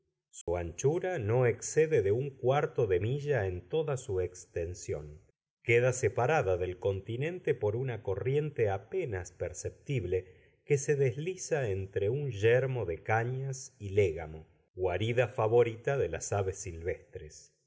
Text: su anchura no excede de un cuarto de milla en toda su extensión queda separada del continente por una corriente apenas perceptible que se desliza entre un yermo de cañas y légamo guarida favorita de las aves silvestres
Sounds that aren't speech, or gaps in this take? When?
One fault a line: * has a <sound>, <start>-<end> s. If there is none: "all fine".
* has a dropout, 0.4-0.5 s